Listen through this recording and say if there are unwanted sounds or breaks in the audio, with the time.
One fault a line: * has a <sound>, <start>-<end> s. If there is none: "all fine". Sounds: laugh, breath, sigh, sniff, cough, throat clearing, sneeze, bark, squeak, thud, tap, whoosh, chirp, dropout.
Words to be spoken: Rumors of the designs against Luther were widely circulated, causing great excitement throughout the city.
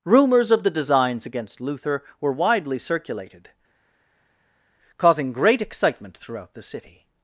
all fine